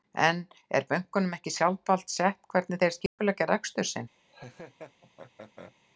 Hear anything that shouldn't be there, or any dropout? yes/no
yes